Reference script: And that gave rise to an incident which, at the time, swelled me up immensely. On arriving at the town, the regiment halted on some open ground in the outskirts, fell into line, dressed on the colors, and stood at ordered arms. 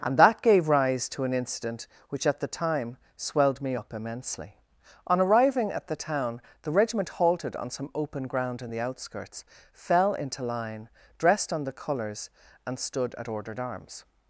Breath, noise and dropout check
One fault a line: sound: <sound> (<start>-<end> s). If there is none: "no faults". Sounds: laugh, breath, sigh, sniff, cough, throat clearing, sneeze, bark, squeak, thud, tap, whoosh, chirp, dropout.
no faults